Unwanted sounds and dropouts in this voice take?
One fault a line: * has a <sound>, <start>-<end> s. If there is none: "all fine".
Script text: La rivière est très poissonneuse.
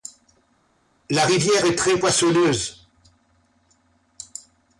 all fine